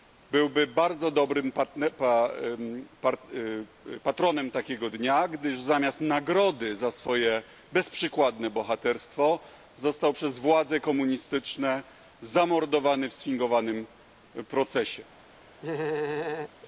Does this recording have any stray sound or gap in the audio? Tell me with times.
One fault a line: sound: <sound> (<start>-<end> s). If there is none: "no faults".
sound: laugh (15.6-16.5 s)